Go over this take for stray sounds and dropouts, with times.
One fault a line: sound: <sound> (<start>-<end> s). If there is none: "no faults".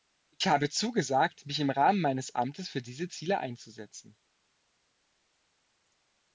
no faults